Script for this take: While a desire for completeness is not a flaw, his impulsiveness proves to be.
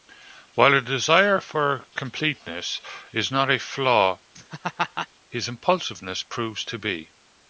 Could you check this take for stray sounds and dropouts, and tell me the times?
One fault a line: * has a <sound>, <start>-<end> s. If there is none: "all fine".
* has a laugh, 4.4-5.1 s